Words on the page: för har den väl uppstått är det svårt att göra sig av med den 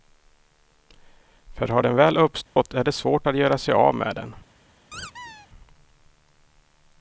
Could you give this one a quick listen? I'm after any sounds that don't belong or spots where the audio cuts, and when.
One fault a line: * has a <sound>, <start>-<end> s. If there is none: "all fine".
* has a dropout, 2.5-2.6 s
* has a squeak, 4.9-5.5 s